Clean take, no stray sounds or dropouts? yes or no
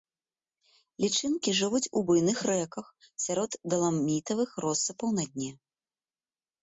yes